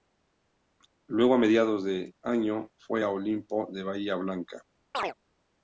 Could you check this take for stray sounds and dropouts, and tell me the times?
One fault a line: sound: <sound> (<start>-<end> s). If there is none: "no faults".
sound: chirp (4.9-5.1 s)